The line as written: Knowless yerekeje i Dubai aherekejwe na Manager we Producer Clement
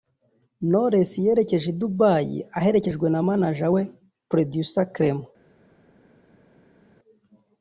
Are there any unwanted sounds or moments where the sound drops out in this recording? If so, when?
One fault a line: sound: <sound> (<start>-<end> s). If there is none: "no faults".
no faults